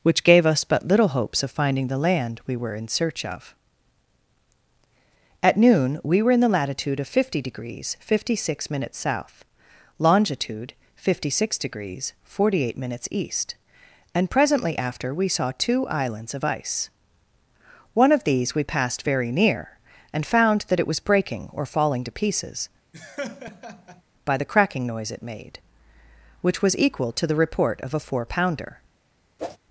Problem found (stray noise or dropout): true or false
true